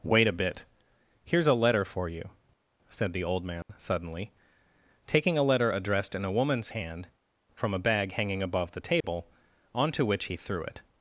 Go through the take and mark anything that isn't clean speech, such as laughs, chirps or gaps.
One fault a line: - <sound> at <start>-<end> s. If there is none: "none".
- dropout at 3.6-3.7 s
- dropout at 9.0-9.0 s